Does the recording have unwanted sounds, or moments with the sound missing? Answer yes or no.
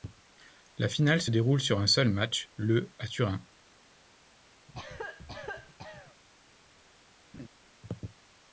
yes